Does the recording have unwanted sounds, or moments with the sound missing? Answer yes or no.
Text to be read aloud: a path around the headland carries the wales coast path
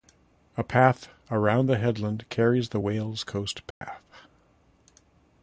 yes